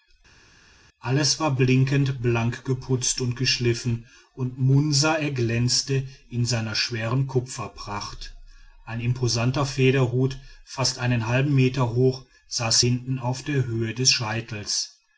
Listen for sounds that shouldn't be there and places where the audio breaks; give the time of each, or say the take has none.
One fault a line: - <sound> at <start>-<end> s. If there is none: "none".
none